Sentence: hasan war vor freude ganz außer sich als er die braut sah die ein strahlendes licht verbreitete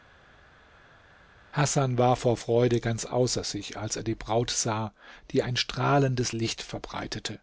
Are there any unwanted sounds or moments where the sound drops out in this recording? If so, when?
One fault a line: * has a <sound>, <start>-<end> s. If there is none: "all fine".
all fine